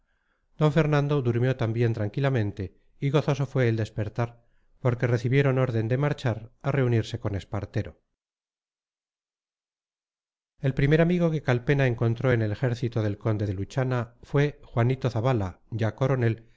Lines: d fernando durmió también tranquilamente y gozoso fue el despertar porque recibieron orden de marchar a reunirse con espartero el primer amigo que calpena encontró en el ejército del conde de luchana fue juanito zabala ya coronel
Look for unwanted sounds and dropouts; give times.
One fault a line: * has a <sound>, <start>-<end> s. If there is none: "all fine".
all fine